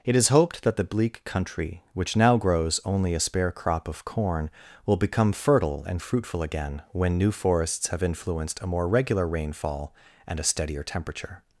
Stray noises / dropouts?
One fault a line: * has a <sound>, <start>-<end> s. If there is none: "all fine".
all fine